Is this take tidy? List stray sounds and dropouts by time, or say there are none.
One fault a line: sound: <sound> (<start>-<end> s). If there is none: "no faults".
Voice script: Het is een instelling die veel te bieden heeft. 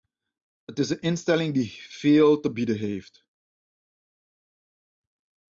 no faults